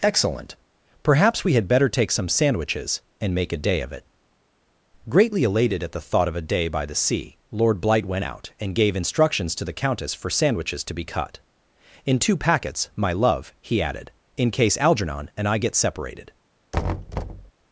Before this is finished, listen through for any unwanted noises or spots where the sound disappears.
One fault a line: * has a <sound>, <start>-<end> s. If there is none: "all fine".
* has a thud, 16.7-17.5 s